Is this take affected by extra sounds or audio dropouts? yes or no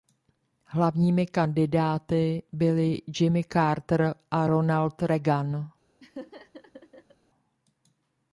yes